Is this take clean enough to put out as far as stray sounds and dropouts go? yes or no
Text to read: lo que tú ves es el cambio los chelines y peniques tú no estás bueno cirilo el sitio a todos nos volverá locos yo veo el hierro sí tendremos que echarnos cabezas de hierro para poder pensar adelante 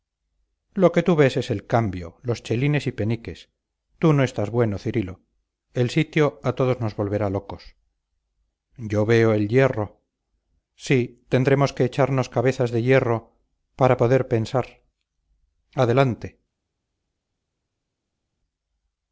yes